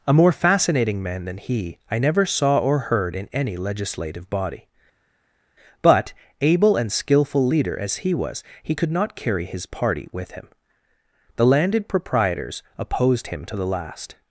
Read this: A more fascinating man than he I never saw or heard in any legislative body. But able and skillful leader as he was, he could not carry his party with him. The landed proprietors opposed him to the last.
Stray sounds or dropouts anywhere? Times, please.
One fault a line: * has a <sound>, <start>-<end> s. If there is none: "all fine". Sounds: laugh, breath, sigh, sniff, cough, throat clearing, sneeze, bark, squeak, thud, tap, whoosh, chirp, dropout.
all fine